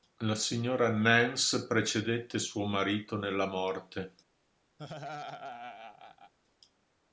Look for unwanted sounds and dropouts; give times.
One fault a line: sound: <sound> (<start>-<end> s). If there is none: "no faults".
sound: laugh (4.8-6.3 s)